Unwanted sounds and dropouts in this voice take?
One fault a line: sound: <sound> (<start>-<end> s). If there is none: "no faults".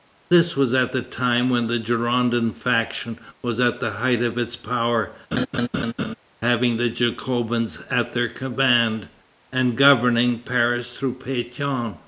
sound: laugh (5.3-6.2 s)